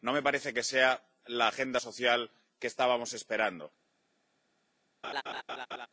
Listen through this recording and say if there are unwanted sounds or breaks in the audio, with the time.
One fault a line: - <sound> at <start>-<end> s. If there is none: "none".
- laugh at 5.0-5.9 s